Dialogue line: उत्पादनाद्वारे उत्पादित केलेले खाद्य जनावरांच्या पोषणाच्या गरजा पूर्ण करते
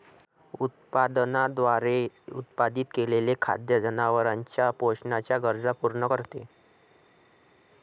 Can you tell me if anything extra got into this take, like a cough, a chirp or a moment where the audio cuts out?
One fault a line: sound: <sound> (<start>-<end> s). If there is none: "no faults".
no faults